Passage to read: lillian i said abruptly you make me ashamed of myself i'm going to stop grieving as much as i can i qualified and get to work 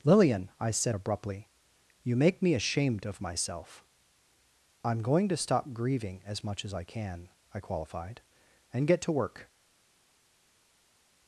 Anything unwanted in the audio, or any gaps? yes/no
no